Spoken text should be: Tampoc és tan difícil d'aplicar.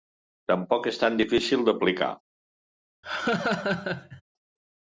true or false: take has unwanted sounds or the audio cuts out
true